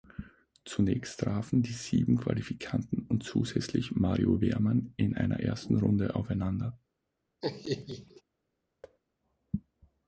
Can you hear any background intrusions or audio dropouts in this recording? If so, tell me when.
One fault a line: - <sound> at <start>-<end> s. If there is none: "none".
- laugh at 7.4-8.2 s
- thud at 8.8-9.0 s